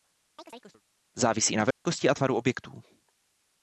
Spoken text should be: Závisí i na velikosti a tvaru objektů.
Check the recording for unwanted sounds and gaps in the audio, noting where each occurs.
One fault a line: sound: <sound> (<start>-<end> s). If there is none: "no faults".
sound: chirp (0.4-0.8 s)
sound: dropout (1.7-1.9 s)